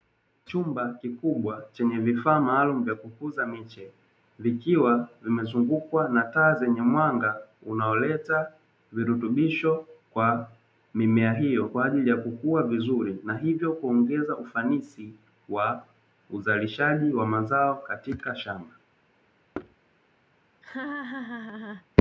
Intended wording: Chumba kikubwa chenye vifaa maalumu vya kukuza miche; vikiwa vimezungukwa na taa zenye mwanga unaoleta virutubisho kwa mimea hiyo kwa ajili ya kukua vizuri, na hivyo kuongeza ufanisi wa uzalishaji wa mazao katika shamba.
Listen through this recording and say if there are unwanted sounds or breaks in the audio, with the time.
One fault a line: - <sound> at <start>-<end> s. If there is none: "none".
- thud at 19.5-19.8 s
- laugh at 20.6-21.9 s